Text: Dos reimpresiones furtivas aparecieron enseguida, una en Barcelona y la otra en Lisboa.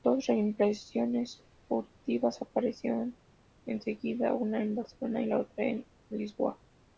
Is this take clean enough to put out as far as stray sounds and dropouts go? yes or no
yes